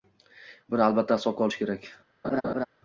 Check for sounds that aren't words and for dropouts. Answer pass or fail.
fail